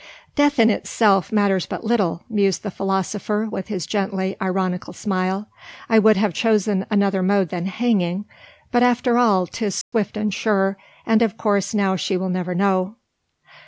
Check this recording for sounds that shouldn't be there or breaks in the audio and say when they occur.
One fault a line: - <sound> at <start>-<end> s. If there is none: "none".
- dropout at 9.8-9.9 s